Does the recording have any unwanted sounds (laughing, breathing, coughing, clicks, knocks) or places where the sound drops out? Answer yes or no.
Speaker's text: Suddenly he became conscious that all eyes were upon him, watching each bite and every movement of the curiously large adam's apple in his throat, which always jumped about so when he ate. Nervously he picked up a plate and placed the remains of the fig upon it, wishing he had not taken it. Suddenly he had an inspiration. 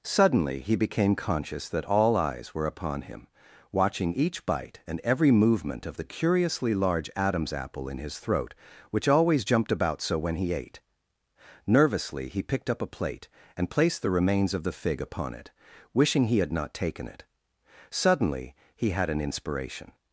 no